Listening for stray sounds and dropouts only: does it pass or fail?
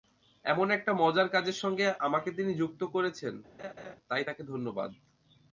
fail